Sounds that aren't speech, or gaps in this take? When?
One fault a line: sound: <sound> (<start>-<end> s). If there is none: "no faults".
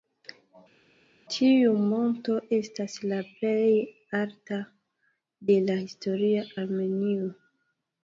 no faults